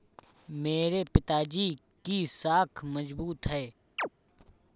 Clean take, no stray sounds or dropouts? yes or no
no